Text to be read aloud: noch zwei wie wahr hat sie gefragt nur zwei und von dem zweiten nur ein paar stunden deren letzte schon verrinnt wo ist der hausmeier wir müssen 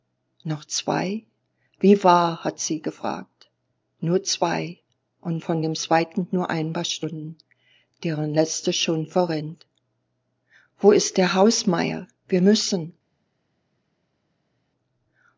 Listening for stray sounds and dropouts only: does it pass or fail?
pass